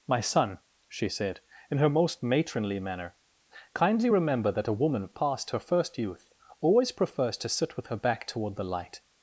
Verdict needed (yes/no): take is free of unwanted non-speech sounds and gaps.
yes